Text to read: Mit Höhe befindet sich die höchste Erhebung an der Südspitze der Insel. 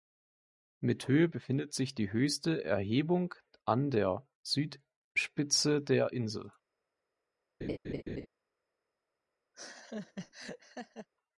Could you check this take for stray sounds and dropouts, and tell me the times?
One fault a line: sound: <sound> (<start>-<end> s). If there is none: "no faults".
sound: laugh (7.6-8.3 s)
sound: laugh (9.5-11.1 s)